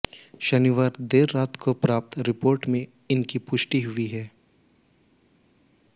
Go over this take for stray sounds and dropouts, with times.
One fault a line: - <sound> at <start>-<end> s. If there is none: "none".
none